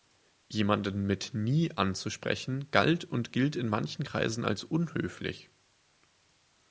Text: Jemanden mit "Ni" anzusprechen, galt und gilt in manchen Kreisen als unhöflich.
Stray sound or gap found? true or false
false